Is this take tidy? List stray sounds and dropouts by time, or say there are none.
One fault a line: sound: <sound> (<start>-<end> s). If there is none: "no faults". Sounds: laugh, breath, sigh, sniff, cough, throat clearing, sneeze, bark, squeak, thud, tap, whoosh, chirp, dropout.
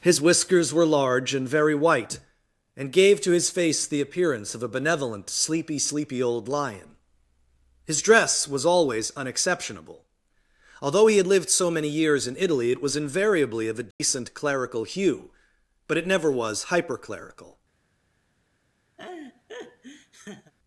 sound: dropout (13.9-14.0 s)
sound: laugh (19.0-20.5 s)